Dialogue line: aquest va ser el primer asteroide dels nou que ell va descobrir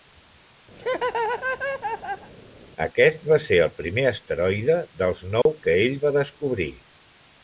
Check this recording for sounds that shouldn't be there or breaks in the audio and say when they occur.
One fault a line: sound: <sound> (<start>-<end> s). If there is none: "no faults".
sound: laugh (0.8-2.3 s)
sound: dropout (5.4-5.5 s)